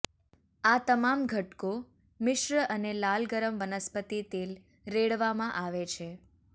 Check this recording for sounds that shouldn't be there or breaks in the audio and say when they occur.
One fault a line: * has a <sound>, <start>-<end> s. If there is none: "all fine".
all fine